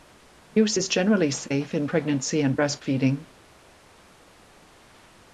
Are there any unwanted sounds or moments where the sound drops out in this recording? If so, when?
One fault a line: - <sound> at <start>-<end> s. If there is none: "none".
none